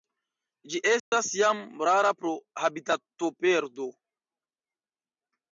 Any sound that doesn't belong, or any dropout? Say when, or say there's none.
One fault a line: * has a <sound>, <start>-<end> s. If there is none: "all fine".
* has a dropout, 1.0-1.1 s